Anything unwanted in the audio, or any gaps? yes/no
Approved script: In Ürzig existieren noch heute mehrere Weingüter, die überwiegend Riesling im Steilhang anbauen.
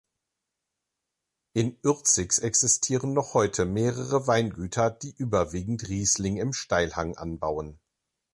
no